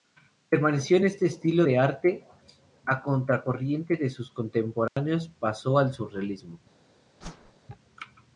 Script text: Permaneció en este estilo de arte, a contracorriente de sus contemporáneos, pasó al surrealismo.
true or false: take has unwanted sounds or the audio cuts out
true